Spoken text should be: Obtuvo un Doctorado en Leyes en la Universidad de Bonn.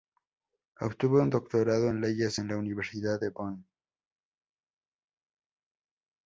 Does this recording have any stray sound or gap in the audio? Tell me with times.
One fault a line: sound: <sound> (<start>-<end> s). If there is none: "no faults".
no faults